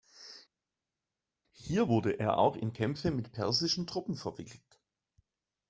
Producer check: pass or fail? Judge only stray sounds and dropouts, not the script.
pass